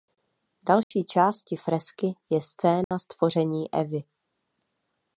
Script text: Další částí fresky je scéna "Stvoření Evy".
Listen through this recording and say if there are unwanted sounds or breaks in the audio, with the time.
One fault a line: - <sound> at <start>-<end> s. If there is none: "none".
- dropout at 0.8-0.9 s
- dropout at 2.8-2.9 s